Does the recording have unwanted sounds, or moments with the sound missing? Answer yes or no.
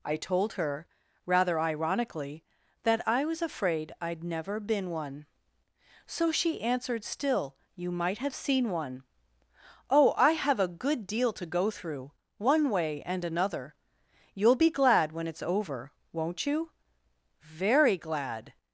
no